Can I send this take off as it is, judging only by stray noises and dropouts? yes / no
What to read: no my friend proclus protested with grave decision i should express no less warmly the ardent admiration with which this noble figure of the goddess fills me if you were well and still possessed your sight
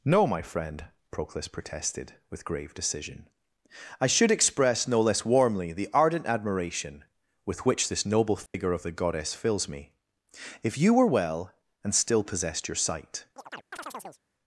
no